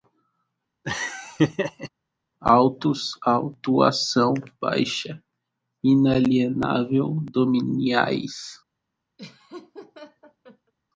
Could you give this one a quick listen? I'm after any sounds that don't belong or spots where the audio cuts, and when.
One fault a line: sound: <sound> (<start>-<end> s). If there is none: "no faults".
sound: laugh (0.8-1.9 s)
sound: laugh (9.2-10.7 s)